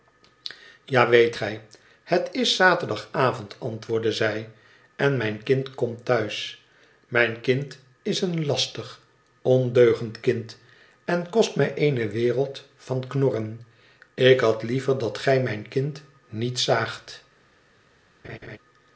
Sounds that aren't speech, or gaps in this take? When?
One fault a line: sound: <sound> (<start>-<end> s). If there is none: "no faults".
sound: laugh (18.2-18.6 s)